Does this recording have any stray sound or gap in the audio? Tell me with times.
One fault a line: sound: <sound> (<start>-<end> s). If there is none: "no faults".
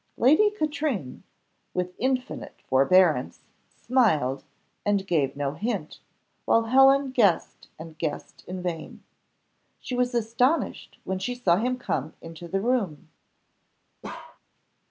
sound: bark (14.0-14.4 s)